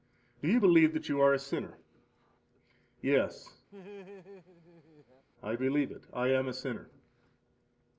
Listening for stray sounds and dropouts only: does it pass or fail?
fail